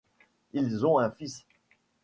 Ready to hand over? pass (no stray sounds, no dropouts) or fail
pass